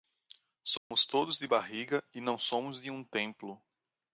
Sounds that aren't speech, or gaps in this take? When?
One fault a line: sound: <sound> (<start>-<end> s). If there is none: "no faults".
sound: dropout (0.8-0.9 s)